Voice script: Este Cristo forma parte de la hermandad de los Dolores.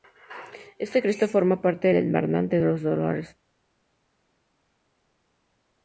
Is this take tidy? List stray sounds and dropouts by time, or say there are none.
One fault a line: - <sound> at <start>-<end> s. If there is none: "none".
none